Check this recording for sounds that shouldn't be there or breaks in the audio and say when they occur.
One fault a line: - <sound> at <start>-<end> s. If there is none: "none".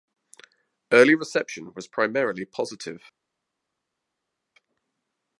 none